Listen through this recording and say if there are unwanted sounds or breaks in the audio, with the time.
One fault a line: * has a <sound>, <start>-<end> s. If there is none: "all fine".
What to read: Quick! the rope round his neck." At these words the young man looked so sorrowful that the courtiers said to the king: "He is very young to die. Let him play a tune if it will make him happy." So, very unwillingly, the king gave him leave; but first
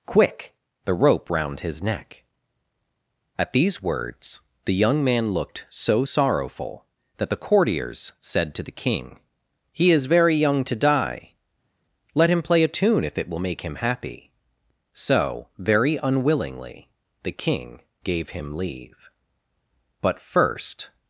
all fine